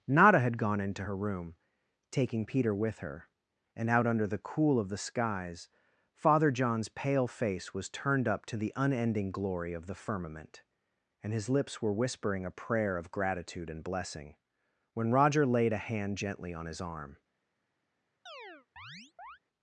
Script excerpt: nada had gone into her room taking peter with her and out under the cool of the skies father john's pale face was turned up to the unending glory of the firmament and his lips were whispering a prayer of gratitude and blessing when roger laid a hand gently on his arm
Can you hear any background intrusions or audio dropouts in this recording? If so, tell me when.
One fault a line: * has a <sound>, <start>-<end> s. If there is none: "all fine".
* has a chirp, 18.3-19.4 s